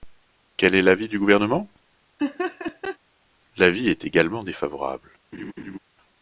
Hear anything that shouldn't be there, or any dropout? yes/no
yes